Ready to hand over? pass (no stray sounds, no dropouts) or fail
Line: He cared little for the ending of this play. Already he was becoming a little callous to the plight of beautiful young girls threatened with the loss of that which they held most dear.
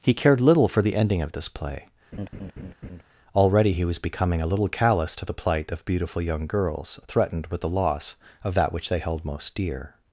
fail